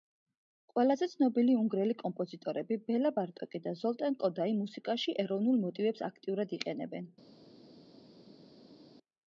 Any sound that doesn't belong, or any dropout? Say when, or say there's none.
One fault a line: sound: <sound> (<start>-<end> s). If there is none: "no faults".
no faults